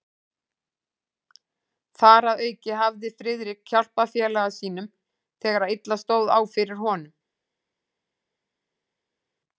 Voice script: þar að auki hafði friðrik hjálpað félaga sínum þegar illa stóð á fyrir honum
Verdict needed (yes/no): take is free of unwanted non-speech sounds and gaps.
yes